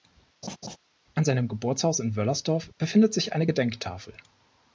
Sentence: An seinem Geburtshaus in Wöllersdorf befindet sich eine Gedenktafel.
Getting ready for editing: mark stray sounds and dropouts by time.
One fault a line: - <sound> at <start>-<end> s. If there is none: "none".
- laugh at 0.4-0.8 s